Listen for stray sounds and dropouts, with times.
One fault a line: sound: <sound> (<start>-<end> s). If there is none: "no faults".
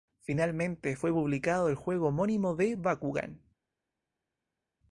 no faults